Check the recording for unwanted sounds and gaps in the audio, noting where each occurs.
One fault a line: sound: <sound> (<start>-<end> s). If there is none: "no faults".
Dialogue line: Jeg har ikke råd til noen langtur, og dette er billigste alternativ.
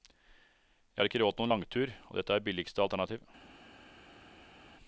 no faults